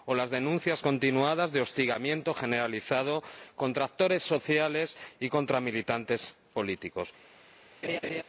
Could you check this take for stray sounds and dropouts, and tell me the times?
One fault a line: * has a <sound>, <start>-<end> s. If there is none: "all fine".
* has a laugh, 7.8-8.2 s